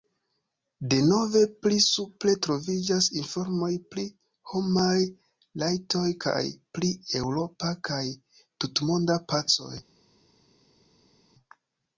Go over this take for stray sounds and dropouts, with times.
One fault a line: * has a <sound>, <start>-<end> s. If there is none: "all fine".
all fine